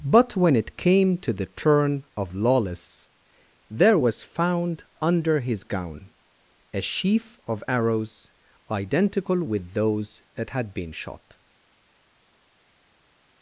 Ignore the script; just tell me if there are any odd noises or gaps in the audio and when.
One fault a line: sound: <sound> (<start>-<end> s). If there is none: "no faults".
no faults